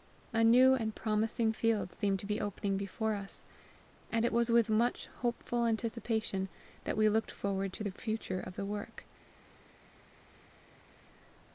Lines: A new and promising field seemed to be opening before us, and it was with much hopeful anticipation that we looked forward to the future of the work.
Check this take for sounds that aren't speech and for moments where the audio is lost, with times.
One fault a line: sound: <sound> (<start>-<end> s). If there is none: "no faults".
no faults